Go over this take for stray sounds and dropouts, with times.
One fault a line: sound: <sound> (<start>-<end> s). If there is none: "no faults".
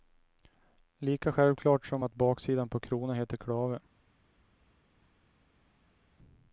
no faults